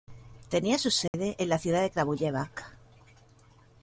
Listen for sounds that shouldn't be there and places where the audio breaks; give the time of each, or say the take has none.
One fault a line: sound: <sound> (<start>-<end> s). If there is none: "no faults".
sound: dropout (1.1-1.1 s)